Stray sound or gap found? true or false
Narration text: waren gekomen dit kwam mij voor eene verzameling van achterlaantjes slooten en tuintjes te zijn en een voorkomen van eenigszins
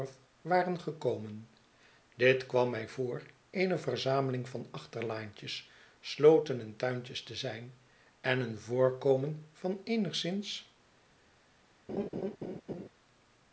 true